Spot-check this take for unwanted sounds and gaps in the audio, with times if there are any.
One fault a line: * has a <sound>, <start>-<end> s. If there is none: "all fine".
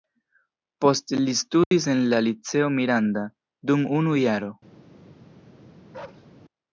* has a dropout, 1.6-1.7 s
* has a bark, 5.9-6.3 s